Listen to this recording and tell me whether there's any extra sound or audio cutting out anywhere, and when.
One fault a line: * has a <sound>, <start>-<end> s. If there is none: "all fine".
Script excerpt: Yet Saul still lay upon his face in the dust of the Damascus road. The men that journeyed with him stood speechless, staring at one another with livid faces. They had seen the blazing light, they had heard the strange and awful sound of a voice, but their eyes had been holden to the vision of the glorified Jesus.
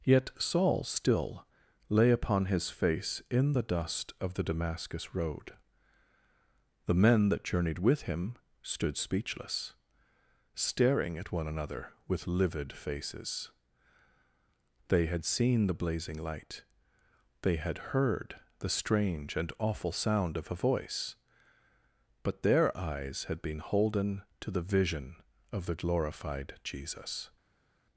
all fine